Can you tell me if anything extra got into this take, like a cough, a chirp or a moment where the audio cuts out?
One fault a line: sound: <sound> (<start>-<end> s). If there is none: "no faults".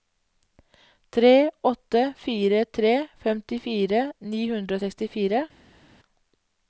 no faults